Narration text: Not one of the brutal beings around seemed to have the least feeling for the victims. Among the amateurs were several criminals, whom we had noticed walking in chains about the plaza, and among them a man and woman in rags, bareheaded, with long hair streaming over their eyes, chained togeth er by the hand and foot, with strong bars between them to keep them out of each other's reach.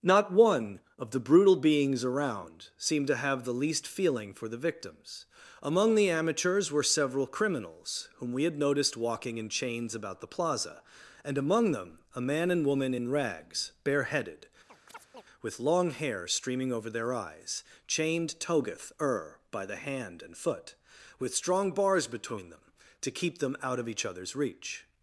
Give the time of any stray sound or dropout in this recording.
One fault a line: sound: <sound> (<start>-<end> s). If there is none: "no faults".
sound: chirp (14.7-15.2 s)